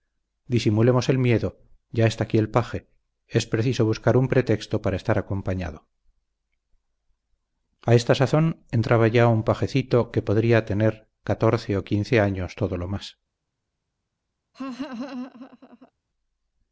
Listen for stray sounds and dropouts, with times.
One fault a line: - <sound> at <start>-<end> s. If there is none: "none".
- laugh at 14.5-15.9 s